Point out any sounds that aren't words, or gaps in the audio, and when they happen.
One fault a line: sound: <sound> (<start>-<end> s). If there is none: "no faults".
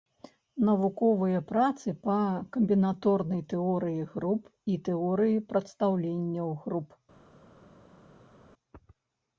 no faults